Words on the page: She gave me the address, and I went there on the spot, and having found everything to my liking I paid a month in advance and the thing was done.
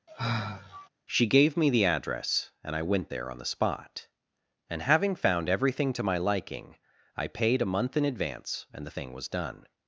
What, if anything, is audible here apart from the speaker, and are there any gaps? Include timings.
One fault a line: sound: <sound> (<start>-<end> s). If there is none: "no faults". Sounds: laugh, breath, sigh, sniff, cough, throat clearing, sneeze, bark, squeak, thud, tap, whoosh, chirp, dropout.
sound: sigh (0.1-0.9 s)